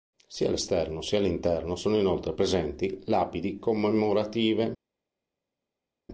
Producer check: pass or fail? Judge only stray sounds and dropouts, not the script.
pass